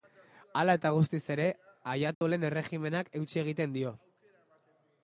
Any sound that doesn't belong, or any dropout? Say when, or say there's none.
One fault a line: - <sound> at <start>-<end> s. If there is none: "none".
- dropout at 2.1-2.2 s